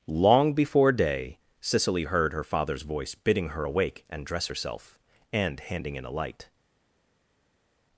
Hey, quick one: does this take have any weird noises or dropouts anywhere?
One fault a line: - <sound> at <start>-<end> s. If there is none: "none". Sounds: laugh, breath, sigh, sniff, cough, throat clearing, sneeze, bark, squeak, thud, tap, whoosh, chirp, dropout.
none